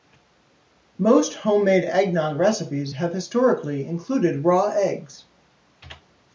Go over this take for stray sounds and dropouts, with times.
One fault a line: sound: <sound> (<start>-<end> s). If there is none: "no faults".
no faults